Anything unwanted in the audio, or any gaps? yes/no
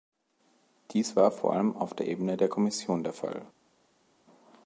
no